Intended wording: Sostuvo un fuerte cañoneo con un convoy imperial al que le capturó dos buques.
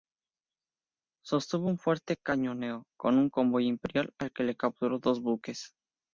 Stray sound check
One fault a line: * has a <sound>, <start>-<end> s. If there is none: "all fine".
all fine